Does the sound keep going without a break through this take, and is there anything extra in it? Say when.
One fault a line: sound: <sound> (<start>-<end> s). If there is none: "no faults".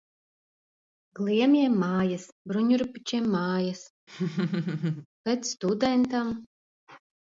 sound: laugh (4.1-5.1 s)